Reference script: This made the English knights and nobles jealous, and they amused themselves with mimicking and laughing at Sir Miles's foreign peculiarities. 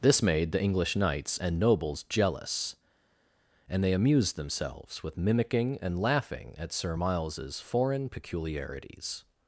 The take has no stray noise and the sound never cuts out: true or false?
true